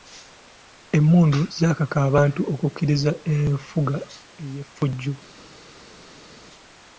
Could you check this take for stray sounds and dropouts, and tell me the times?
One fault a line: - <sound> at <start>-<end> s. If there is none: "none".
none